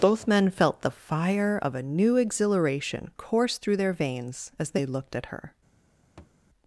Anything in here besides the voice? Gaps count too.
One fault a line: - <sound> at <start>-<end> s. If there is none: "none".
- thud at 6.2-6.4 s